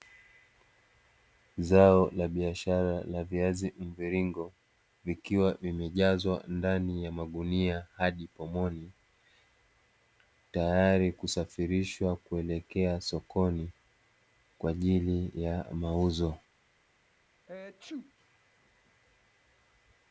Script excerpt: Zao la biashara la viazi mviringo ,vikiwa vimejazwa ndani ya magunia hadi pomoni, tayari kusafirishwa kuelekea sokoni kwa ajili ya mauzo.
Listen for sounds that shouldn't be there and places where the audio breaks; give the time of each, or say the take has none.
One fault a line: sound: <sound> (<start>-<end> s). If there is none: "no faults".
sound: sneeze (17.5-18.1 s)